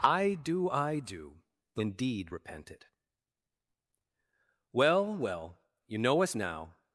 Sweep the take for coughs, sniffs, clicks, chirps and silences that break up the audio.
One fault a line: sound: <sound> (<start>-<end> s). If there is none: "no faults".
no faults